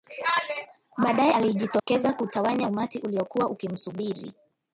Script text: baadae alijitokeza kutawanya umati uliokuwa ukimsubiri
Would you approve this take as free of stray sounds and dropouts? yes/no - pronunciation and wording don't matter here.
no